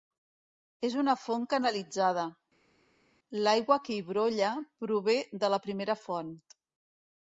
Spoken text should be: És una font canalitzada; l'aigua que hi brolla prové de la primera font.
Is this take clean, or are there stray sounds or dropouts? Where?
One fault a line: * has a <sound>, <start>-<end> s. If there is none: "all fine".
all fine